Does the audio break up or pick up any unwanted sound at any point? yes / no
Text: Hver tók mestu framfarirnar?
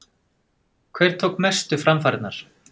no